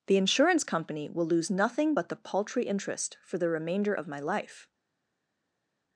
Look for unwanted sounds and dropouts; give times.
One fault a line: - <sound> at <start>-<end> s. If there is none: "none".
none